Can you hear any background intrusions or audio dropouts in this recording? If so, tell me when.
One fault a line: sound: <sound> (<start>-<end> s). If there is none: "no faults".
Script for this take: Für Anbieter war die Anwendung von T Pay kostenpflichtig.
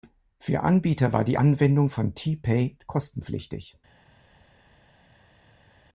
no faults